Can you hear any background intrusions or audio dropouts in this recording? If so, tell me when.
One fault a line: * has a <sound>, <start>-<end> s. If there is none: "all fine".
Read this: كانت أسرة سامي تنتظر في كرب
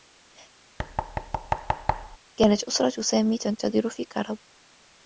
* has a thud, 0.8-2.2 s